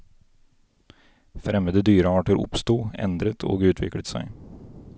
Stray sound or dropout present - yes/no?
no